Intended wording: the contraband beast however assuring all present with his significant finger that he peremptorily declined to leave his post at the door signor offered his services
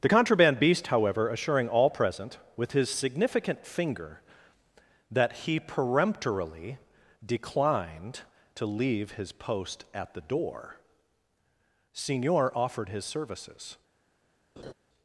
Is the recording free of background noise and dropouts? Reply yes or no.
no